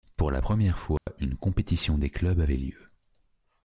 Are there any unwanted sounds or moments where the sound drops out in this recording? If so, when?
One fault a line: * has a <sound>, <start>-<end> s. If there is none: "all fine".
* has a dropout, 1.0-1.1 s